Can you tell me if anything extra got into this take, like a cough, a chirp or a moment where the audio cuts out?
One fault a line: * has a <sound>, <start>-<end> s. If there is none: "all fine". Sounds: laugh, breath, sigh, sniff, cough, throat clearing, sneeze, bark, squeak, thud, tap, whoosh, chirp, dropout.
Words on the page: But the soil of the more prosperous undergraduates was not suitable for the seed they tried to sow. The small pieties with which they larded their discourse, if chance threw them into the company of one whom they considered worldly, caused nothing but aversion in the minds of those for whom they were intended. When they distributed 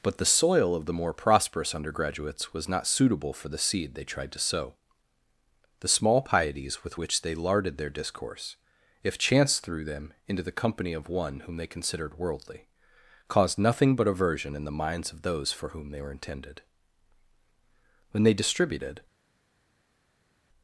all fine